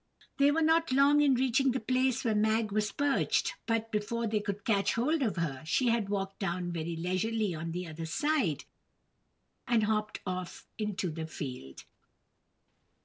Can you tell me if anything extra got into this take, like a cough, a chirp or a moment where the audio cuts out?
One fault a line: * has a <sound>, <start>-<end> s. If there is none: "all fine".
all fine